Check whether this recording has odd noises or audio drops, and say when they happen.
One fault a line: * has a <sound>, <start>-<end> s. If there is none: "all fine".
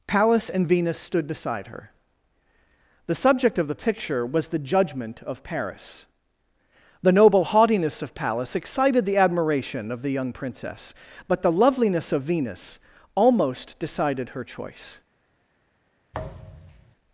* has a thud, 16.1-17.0 s